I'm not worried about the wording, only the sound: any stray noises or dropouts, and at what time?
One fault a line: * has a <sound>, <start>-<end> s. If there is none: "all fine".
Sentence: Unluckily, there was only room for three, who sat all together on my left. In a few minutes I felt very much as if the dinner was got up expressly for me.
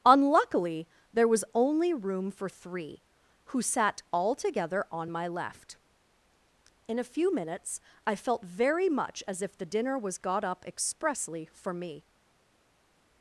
all fine